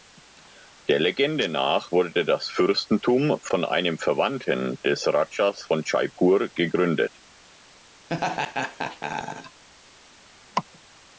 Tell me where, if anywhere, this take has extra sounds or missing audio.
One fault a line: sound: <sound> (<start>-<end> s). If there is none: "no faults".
sound: laugh (8.1-9.6 s)